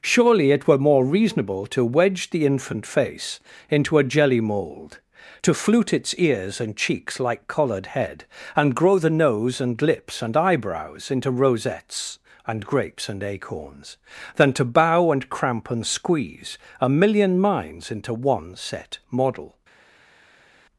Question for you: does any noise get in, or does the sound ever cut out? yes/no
no